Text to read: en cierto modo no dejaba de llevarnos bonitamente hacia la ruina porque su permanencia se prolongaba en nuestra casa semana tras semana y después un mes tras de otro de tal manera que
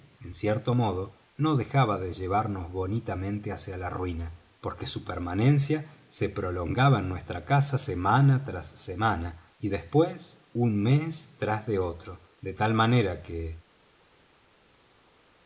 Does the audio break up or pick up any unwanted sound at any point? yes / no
no